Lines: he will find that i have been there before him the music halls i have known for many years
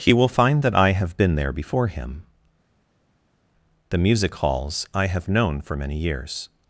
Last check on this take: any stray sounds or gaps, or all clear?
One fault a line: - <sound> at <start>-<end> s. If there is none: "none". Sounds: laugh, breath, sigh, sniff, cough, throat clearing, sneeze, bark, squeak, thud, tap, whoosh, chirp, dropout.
none